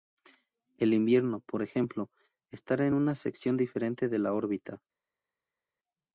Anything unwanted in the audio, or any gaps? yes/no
no